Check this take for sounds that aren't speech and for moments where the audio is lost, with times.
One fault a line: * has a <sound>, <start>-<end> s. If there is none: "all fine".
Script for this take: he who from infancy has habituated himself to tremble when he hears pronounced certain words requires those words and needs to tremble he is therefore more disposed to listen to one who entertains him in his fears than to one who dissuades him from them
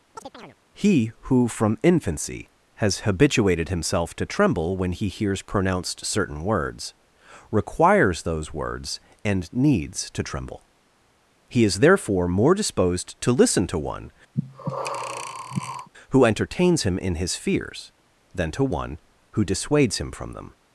* has a chirp, 0.2-0.6 s
* has a breath, 14.3-15.9 s